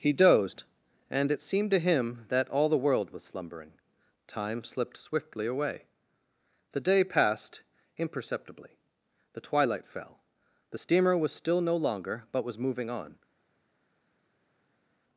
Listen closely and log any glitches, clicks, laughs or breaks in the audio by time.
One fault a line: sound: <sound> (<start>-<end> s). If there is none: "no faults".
no faults